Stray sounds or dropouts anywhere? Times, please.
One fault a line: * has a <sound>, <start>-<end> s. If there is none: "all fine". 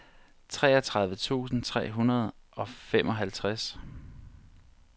all fine